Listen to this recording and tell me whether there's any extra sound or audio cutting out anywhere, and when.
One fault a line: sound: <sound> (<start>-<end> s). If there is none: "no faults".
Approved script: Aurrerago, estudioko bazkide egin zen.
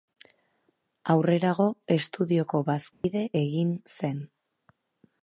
sound: dropout (2.9-3.0 s)